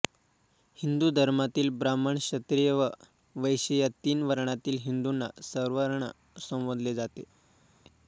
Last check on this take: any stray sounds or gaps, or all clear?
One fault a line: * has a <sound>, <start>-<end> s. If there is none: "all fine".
all fine